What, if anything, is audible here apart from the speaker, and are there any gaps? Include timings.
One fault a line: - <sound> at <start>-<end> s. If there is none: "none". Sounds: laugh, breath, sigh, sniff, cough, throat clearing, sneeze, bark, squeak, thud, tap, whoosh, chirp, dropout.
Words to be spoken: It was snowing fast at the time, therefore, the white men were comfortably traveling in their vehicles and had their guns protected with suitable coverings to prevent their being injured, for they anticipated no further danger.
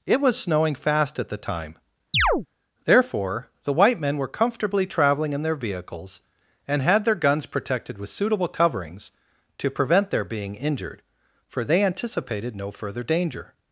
- chirp at 2.1-2.5 s